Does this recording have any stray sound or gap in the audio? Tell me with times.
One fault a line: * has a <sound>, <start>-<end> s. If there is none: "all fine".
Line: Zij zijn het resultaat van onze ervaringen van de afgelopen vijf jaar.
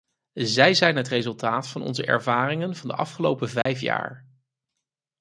* has a dropout, 3.6-3.7 s